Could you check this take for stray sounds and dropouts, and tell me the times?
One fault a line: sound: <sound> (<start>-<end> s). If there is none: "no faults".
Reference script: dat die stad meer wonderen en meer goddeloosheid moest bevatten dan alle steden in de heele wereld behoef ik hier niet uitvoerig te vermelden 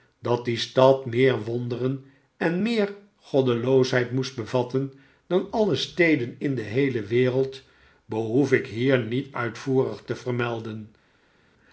no faults